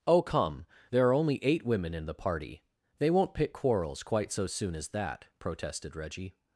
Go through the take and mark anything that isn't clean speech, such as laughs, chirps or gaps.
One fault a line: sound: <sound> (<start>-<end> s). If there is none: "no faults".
no faults